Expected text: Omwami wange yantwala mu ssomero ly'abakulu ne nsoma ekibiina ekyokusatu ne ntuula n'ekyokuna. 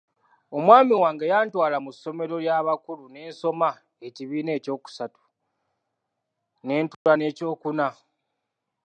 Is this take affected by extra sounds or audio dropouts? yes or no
yes